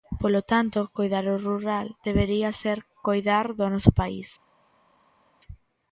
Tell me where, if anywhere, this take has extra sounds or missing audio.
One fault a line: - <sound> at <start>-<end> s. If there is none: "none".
none